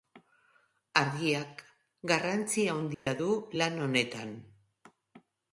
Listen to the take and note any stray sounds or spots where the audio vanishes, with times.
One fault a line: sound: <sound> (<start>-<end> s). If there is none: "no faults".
sound: dropout (2.9-3.1 s)